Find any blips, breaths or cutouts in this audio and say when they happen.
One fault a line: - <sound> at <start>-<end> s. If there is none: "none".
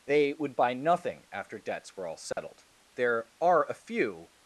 - dropout at 2.3-2.4 s